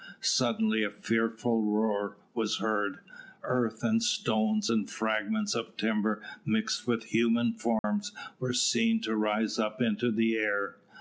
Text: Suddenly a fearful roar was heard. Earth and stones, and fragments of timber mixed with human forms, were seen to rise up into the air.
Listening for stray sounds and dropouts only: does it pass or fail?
fail